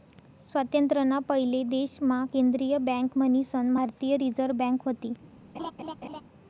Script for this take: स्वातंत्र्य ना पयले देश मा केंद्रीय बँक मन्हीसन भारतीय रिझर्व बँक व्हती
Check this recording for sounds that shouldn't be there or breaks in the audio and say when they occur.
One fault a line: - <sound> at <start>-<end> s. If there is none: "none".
- laugh at 5.5-6.2 s